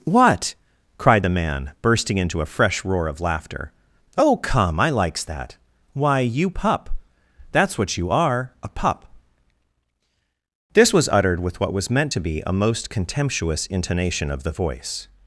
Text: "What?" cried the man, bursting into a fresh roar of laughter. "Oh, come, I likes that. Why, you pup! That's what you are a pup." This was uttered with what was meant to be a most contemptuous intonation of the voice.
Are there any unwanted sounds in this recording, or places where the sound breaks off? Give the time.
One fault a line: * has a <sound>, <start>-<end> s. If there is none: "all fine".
all fine